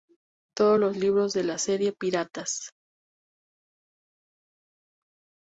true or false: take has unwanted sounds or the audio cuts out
false